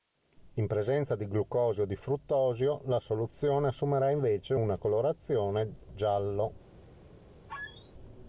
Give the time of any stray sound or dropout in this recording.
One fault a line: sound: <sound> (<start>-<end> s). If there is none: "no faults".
sound: squeak (7.5-7.9 s)